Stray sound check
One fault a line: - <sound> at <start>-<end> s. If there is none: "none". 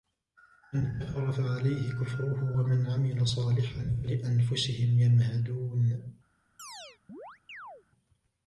- chirp at 6.6-7.8 s